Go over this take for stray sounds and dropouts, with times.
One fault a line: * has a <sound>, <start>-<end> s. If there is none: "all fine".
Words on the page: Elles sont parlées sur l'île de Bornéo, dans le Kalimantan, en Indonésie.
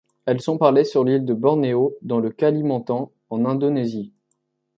all fine